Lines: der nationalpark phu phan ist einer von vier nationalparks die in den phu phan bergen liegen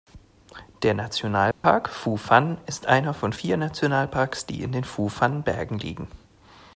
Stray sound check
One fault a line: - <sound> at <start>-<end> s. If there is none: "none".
- dropout at 1.5-1.6 s